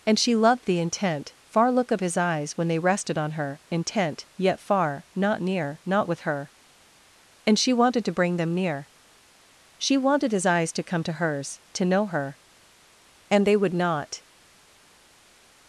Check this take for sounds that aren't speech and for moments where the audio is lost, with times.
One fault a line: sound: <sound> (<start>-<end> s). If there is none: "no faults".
no faults